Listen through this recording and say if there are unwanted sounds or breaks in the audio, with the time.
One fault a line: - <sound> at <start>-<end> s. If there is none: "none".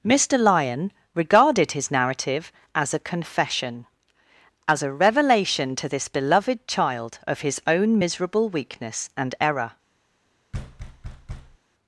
- thud at 10.5-11.6 s